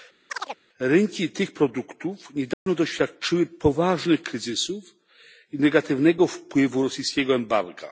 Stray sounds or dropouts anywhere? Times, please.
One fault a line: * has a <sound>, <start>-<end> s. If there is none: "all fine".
* has a chirp, 0.3-0.6 s
* has a dropout, 2.5-2.7 s